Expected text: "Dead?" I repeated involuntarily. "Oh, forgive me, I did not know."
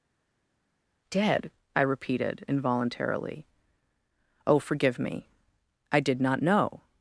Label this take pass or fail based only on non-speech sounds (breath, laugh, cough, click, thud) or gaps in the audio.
pass